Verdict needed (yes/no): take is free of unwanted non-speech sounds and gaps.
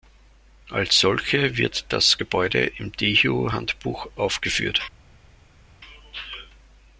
yes